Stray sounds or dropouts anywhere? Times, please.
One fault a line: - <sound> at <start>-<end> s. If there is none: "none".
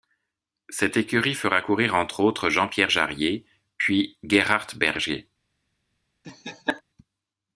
- laugh at 6.2-6.8 s